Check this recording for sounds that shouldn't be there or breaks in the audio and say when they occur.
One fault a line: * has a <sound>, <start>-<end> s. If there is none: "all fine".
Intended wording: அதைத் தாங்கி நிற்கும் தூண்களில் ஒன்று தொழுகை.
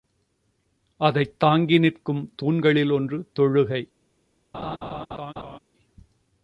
* has a laugh, 4.5-5.6 s